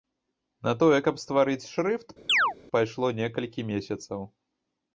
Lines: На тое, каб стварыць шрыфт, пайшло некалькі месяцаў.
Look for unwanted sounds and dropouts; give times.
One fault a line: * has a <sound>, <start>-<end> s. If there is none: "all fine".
* has a chirp, 2.3-2.5 s